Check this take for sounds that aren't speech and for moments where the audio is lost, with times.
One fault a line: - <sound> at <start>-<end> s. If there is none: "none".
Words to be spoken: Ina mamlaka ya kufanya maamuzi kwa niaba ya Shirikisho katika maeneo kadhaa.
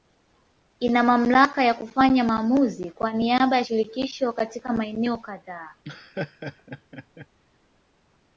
- laugh at 5.8-7.3 s